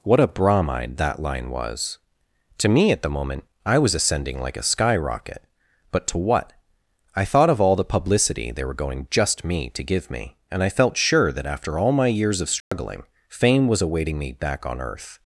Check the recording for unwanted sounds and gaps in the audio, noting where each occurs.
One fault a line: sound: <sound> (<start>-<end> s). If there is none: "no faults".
sound: dropout (12.6-12.7 s)